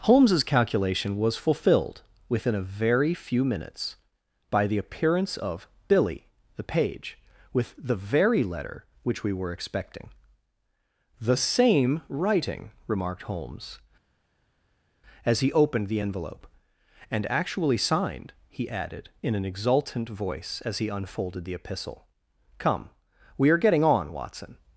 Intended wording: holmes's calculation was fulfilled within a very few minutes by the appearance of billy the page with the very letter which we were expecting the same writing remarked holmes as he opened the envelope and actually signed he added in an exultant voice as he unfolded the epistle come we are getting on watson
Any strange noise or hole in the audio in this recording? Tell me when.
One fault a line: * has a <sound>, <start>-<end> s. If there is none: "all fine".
all fine